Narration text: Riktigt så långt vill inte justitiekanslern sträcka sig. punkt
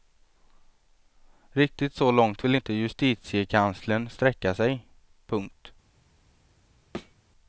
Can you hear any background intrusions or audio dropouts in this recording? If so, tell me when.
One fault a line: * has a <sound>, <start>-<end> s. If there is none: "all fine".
* has a thud, 6.9-7.1 s